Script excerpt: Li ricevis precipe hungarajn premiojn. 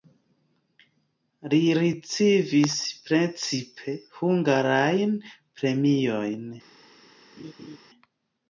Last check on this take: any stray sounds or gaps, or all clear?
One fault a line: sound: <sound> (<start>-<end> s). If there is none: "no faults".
sound: laugh (7.4-7.8 s)